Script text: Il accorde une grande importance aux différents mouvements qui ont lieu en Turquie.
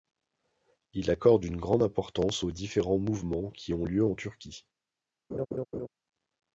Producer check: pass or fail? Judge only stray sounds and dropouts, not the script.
fail